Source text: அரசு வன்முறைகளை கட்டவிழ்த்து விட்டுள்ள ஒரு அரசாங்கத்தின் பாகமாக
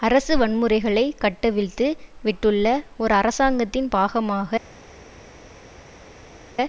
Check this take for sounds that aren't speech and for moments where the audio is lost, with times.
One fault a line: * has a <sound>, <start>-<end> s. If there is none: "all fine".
all fine